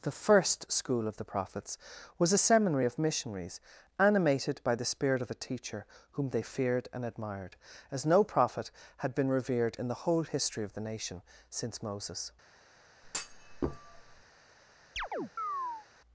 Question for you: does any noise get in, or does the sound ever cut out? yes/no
yes